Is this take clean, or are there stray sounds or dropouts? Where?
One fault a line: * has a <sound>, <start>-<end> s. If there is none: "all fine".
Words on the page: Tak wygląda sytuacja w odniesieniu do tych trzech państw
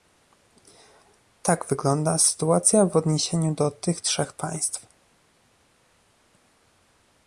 all fine